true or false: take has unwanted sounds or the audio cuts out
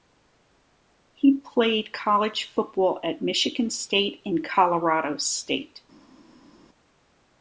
false